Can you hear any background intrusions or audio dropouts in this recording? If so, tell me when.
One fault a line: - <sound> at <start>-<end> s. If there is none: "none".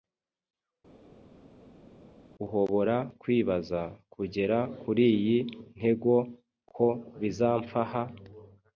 none